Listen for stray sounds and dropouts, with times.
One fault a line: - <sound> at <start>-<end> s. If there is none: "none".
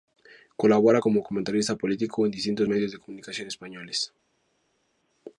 none